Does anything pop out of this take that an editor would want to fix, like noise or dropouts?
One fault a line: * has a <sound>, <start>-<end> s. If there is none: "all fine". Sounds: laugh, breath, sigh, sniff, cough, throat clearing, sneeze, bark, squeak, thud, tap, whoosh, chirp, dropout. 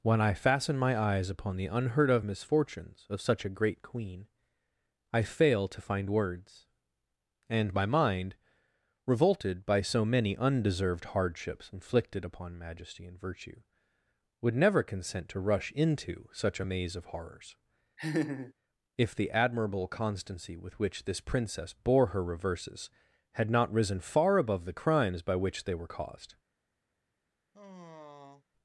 * has a laugh, 18.0-18.5 s
* has a sigh, 27.5-28.5 s